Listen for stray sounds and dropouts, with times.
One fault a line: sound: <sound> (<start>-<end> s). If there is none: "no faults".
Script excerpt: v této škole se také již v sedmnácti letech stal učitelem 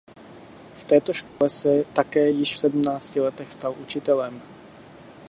sound: dropout (1.3-1.4 s)